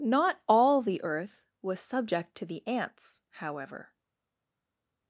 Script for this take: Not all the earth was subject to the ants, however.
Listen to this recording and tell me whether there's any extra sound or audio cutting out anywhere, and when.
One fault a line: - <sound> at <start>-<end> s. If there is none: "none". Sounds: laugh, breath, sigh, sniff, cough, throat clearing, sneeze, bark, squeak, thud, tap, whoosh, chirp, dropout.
none